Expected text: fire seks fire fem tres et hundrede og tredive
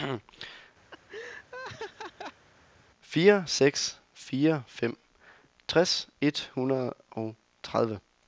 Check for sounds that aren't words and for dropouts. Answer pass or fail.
fail